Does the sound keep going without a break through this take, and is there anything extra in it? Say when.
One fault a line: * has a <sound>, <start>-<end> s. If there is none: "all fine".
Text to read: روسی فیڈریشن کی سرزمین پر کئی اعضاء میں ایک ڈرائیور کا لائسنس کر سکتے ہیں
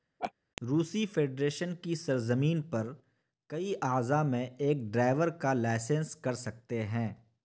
* has a laugh, 0.2-0.3 s